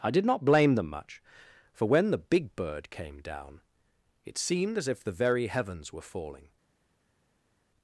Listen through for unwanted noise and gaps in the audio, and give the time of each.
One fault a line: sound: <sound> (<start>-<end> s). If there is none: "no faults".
no faults